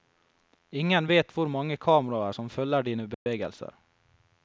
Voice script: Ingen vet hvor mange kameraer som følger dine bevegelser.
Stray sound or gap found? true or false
true